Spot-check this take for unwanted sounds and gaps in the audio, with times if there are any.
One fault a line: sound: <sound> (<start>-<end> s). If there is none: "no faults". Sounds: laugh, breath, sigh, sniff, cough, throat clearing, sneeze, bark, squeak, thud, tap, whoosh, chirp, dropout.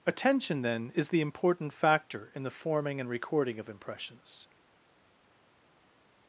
no faults